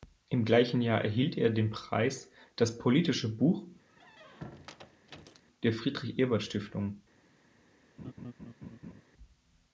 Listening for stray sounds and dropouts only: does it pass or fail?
fail